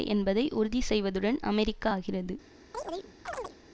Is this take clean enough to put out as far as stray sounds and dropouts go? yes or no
no